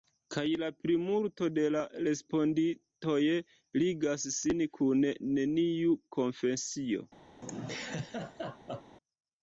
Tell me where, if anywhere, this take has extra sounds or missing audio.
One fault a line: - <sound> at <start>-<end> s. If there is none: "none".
- laugh at 7.4-9.0 s